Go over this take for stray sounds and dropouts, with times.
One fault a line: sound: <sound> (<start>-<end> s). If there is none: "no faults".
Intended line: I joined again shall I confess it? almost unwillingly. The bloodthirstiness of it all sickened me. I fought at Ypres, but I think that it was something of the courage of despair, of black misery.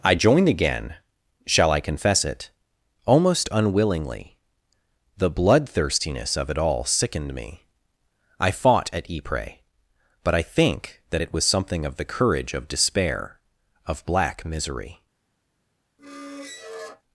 sound: squeak (16.0-17.0 s)